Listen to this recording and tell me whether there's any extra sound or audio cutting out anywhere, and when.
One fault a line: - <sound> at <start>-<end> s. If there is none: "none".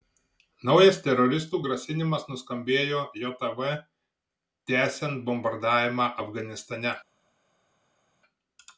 none